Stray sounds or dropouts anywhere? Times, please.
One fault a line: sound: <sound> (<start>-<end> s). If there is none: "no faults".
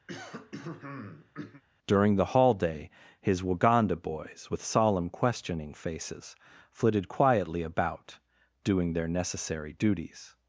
sound: throat clearing (0.1-1.6 s)